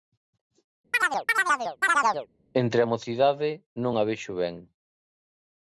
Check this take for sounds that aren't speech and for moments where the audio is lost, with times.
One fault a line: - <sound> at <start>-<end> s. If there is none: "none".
- chirp at 0.9-2.3 s